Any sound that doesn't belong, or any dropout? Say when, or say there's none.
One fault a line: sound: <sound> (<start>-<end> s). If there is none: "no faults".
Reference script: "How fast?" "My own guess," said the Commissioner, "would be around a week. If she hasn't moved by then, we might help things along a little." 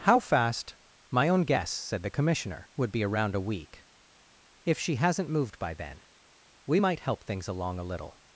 no faults